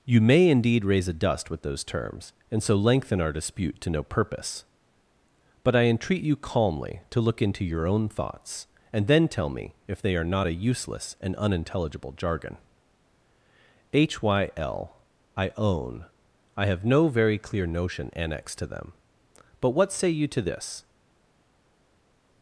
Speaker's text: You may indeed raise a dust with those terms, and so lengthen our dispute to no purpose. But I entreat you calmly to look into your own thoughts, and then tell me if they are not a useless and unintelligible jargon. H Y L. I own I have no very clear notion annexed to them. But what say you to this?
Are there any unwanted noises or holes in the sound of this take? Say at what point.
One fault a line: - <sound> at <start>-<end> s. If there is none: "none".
none